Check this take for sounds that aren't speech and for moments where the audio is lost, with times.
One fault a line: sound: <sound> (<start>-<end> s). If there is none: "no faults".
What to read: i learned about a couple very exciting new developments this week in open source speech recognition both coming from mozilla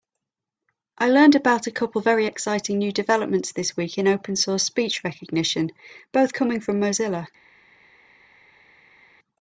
no faults